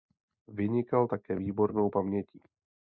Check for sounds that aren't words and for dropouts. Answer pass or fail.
pass